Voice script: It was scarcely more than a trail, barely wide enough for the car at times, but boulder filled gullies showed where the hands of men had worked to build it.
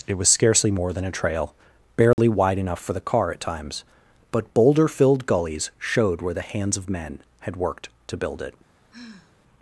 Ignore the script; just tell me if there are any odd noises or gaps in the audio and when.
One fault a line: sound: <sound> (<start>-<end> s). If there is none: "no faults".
sound: dropout (2.1-2.2 s)
sound: sigh (8.9-9.3 s)